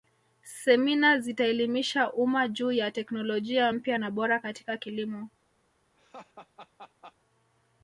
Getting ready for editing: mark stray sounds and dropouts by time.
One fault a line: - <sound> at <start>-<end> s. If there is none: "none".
- laugh at 6.0-7.2 s